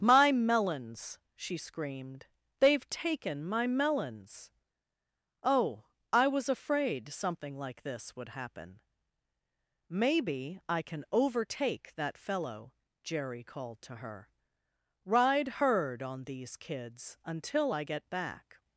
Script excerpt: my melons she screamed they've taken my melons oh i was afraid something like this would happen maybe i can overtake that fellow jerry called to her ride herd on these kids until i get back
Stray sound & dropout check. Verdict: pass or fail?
pass